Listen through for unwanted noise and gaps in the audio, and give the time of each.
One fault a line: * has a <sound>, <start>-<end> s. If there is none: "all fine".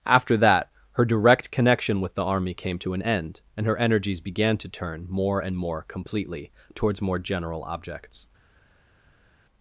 all fine